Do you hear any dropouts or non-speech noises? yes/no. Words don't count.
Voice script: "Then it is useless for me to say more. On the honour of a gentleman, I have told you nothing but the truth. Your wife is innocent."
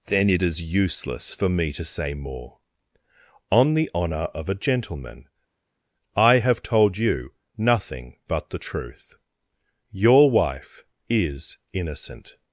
no